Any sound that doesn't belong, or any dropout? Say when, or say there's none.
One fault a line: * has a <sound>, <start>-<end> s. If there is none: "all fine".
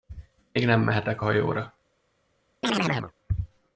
* has a chirp, 2.6-3.1 s